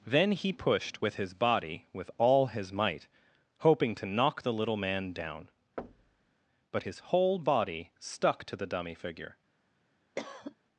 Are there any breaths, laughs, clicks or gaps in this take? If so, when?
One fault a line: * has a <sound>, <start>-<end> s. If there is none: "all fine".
* has a thud, 5.8-6.3 s
* has a cough, 10.2-10.6 s